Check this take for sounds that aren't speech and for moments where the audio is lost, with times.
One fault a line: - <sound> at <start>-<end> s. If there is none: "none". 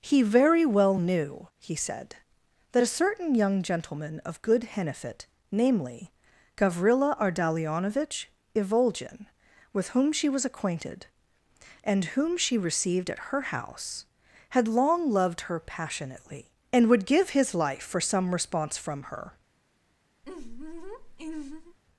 - laugh at 20.2-21.8 s